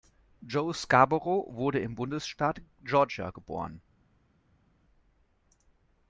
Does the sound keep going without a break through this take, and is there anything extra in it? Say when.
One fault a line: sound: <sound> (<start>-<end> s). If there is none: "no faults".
no faults